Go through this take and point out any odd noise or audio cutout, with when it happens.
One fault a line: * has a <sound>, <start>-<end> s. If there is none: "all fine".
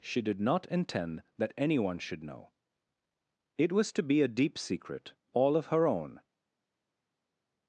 all fine